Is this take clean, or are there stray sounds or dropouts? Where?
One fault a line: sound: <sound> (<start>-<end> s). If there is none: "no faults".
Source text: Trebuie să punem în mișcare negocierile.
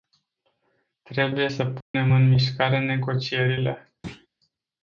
sound: dropout (1.8-1.9 s)
sound: thud (4.0-4.3 s)